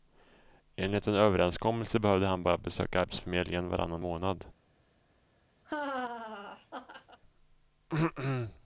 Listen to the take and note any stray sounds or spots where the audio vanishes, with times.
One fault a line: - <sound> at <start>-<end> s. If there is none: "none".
- laugh at 5.6-7.2 s